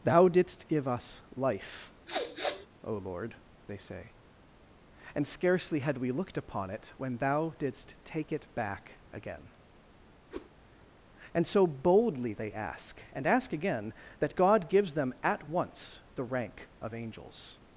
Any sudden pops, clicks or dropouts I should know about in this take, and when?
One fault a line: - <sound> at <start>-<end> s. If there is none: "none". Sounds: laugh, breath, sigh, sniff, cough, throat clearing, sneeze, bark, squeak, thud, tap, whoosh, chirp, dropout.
- sniff at 2.1-2.7 s
- whoosh at 10.3-10.5 s